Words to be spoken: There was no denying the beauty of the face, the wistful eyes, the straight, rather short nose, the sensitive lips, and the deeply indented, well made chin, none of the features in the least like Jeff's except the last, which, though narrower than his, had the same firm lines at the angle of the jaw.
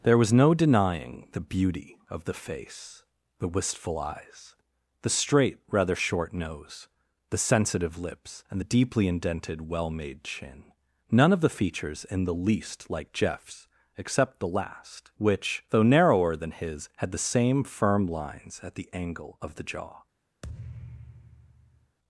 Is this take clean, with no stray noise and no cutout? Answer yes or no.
no